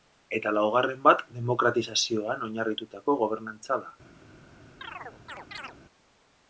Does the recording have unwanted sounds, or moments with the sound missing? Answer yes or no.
yes